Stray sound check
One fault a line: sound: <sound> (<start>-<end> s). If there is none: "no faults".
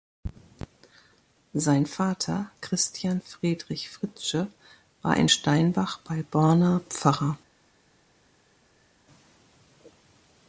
no faults